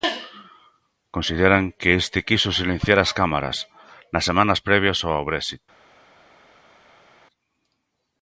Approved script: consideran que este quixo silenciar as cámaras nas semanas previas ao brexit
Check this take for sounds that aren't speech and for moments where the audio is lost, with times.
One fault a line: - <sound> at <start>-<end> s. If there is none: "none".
none